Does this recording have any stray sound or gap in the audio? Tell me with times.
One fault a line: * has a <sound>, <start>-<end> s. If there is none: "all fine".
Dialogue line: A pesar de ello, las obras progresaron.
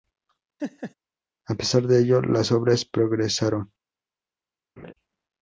* has a laugh, 0.6-0.9 s
* has a laugh, 4.8-4.9 s